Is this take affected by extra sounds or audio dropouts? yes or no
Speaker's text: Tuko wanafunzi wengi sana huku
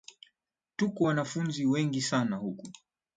no